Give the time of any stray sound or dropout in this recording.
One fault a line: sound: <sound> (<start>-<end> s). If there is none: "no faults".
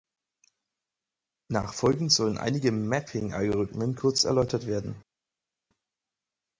no faults